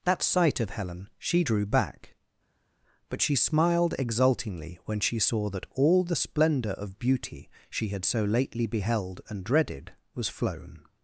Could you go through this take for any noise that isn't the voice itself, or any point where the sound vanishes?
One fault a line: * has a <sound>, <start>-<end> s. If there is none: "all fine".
all fine